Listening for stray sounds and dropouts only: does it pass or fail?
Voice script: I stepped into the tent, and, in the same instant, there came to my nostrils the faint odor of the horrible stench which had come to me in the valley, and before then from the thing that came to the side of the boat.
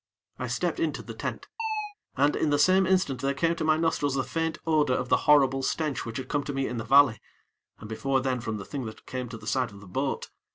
fail